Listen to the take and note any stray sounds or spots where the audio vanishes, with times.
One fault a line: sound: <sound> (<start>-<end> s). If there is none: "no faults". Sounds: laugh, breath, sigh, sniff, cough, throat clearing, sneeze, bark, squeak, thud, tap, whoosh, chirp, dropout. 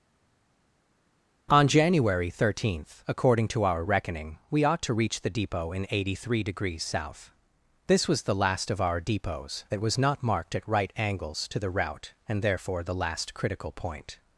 no faults